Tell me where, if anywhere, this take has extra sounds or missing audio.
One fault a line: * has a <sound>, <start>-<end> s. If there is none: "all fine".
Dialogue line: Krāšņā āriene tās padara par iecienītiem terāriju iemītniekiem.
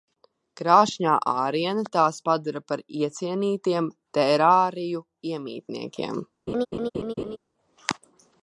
* has a laugh, 6.5-7.4 s